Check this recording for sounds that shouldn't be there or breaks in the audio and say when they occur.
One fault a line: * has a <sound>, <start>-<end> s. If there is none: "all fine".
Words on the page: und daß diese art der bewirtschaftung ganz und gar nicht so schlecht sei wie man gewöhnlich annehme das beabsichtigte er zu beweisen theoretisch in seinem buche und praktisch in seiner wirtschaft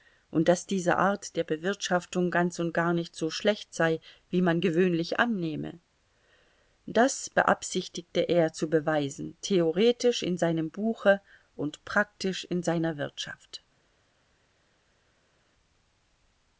all fine